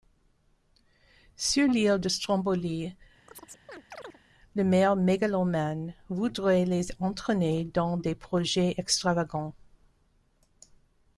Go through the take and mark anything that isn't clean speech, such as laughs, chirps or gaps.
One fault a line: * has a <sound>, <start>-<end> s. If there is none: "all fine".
* has a chirp, 3.3-4.2 s